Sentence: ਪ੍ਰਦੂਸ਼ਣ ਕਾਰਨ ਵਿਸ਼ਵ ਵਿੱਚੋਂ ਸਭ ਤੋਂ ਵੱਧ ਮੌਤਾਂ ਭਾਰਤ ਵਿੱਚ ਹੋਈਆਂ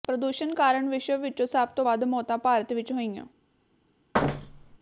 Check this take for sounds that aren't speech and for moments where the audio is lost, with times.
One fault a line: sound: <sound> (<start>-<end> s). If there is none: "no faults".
sound: thud (4.1-4.8 s)